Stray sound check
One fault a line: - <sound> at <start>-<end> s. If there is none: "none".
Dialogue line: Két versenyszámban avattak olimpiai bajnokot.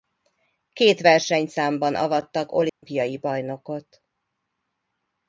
- dropout at 2.7-2.8 s